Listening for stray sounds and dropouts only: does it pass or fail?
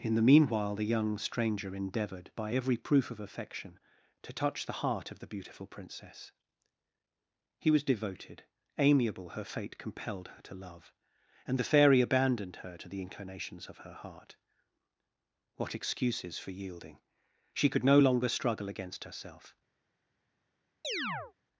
fail